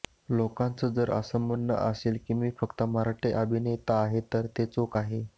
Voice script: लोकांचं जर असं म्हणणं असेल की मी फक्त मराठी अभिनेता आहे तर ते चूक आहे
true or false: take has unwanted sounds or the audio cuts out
false